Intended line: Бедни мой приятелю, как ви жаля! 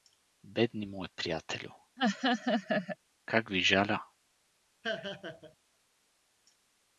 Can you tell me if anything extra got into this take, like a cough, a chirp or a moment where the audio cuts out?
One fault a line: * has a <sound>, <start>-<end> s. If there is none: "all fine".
* has a laugh, 2.0-3.0 s
* has a laugh, 4.8-5.6 s